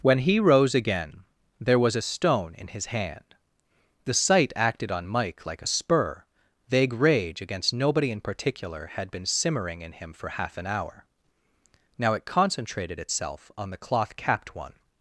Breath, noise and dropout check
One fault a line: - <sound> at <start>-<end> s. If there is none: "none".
none